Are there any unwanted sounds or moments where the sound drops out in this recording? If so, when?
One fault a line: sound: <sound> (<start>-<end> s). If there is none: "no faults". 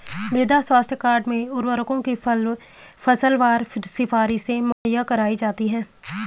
sound: dropout (4.7-4.9 s)